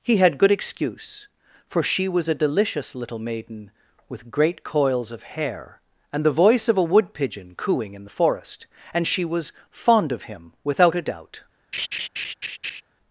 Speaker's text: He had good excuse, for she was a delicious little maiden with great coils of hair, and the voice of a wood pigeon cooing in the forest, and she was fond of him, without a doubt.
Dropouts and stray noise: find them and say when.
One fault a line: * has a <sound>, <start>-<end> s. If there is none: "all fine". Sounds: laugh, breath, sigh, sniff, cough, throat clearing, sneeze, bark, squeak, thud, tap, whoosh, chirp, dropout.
* has a laugh, 11.7-12.8 s